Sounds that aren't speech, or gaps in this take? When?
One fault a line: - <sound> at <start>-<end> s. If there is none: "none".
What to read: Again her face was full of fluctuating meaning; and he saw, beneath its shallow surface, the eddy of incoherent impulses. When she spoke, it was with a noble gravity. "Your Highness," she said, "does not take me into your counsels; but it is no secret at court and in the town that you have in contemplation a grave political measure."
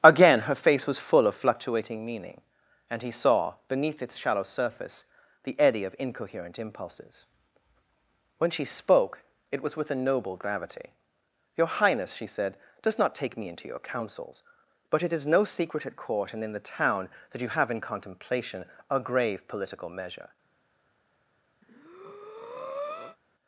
- breath at 21.6-23.2 s